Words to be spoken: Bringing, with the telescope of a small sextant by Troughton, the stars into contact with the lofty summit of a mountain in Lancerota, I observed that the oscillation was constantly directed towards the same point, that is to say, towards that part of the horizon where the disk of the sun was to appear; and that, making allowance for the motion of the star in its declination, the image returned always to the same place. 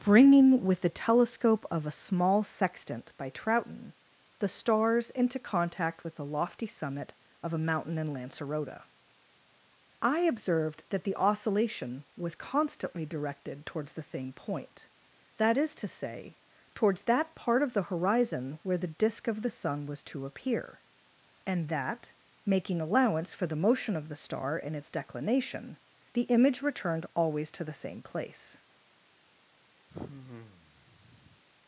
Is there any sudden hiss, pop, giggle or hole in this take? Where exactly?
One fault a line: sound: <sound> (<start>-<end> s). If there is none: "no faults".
sound: sigh (29.9-31.4 s)